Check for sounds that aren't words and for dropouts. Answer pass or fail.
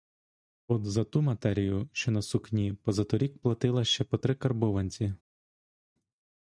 pass